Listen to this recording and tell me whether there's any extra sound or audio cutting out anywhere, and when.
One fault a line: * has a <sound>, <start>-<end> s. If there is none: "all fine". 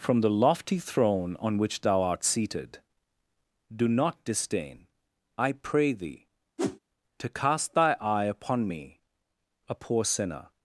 * has a whoosh, 6.6-6.8 s